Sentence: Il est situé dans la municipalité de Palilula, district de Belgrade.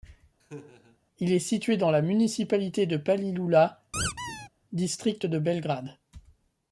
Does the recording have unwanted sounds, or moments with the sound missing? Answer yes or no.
yes